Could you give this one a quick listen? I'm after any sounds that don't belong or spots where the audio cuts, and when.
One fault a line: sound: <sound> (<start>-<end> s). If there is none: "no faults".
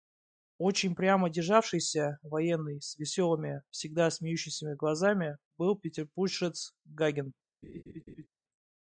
sound: laugh (7.6-8.3 s)